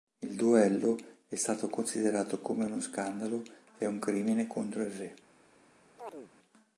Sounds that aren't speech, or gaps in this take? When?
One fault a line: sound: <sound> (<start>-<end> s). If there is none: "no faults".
sound: chirp (6.0-6.3 s)